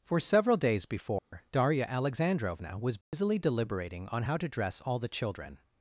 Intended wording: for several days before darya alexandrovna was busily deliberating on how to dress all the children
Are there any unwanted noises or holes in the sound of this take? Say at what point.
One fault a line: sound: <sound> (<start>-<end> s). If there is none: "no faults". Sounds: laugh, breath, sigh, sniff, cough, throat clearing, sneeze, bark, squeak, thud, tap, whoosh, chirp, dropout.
sound: dropout (1.2-1.3 s)
sound: dropout (3.0-3.1 s)